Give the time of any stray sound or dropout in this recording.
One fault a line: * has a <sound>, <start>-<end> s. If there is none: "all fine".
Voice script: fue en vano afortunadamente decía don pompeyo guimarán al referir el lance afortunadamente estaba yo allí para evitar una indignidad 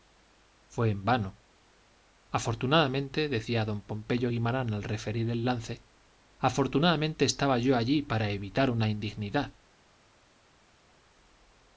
all fine